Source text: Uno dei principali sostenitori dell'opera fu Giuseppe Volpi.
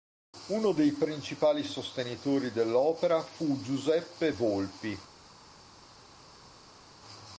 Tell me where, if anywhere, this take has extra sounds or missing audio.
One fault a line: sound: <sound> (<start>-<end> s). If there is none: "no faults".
no faults